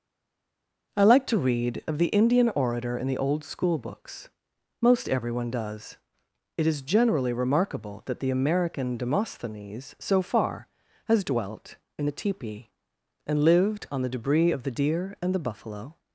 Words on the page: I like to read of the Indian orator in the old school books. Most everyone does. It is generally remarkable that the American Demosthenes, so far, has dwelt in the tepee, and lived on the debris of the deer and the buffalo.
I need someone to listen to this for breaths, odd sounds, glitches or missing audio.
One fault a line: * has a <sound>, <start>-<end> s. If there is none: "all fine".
all fine